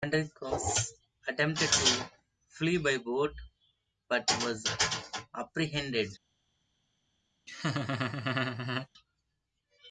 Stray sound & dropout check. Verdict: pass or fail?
fail